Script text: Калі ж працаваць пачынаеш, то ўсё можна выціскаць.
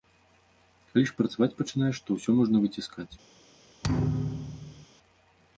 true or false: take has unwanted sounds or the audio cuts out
true